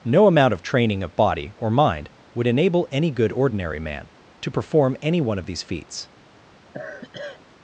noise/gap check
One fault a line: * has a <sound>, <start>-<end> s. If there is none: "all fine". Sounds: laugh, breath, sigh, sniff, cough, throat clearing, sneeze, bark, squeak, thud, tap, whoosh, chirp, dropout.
* has a sigh, 6.7-7.4 s